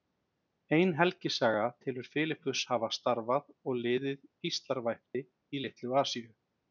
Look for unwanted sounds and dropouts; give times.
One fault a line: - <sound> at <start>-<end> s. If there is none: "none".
- dropout at 5.1-5.1 s